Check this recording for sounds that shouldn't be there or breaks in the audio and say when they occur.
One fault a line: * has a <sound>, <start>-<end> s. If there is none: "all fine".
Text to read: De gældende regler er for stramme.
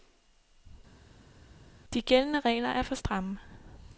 all fine